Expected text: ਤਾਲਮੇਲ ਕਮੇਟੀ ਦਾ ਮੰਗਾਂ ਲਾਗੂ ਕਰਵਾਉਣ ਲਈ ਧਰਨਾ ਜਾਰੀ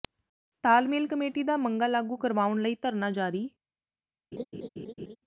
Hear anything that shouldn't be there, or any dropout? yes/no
yes